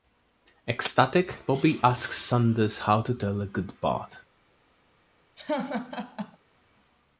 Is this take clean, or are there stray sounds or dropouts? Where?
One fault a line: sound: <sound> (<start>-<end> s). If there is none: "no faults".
sound: laugh (5.4-6.4 s)